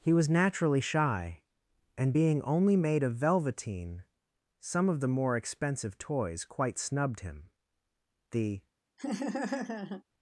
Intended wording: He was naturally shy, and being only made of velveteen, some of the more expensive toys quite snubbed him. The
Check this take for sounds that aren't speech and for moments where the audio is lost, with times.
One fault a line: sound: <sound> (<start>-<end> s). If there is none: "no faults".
sound: laugh (9.0-10.0 s)